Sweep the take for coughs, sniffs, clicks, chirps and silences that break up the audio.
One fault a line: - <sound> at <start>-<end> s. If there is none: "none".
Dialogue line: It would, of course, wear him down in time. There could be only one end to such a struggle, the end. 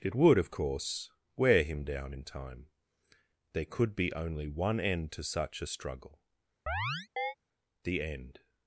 - chirp at 6.7-7.3 s